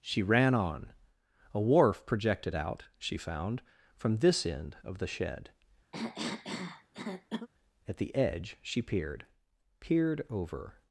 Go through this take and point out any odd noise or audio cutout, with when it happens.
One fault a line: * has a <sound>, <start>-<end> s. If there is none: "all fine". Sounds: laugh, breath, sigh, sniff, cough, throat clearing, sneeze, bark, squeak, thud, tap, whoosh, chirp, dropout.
* has a cough, 5.9-7.5 s